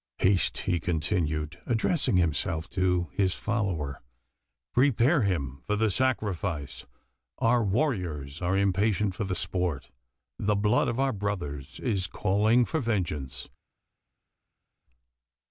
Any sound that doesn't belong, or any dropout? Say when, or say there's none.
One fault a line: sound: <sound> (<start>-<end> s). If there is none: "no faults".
no faults